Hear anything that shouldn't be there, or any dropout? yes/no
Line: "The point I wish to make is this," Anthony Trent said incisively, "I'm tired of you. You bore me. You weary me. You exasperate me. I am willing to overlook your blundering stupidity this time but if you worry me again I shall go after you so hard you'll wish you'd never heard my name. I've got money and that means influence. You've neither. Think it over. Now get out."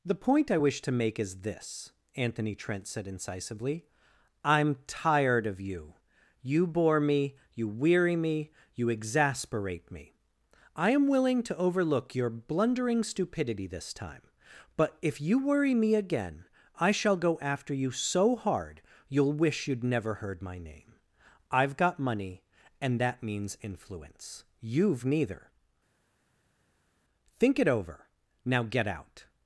no